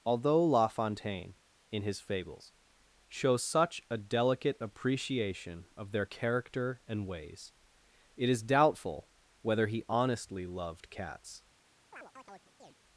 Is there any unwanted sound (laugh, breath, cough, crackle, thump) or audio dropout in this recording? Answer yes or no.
yes